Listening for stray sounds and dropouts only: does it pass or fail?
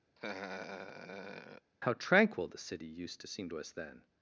fail